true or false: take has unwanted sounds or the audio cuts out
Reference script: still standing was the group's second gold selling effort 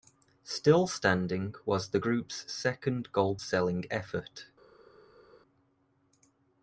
false